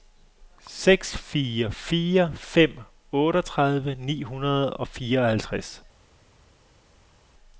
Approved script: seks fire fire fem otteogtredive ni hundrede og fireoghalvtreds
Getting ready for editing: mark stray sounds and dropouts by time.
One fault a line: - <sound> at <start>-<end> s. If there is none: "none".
none